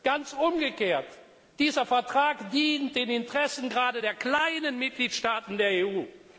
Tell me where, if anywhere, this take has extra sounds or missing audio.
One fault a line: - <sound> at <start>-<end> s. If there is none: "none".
none